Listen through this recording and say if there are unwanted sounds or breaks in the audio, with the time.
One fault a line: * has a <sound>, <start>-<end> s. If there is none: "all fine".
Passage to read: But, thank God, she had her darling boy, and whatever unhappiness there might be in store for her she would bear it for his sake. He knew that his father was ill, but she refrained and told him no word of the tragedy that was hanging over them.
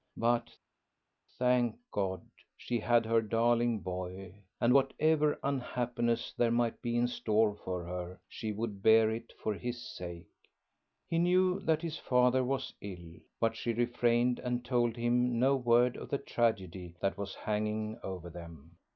all fine